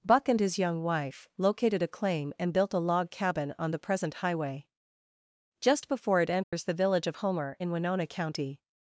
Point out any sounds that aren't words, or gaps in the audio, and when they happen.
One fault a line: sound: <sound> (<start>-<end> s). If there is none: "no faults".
sound: dropout (6.4-6.5 s)